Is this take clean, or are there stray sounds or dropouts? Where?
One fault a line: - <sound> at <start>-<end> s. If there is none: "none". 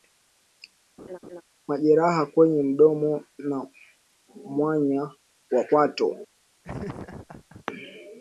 - laugh at 1.0-1.4 s
- laugh at 6.6-7.6 s